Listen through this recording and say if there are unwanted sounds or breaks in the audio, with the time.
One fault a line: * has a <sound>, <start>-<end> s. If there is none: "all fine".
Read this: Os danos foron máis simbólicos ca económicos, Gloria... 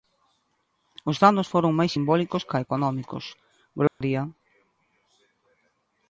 * has a dropout, 3.9-4.0 s